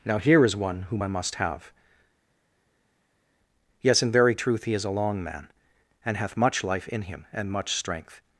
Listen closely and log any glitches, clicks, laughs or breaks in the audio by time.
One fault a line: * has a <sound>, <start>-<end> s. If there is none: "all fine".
all fine